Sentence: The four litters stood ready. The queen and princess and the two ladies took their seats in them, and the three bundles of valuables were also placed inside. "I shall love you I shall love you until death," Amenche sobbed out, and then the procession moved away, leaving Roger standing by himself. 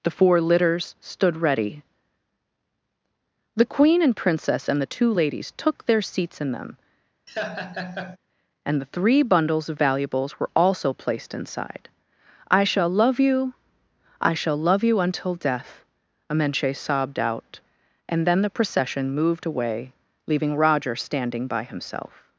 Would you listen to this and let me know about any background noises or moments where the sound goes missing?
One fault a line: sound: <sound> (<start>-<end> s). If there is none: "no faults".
sound: laugh (7.3-8.2 s)